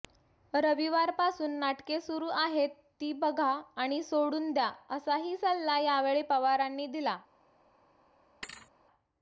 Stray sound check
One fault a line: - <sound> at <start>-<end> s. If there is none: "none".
- thud at 8.4-8.7 s